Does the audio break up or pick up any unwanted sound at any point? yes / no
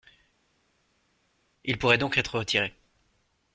no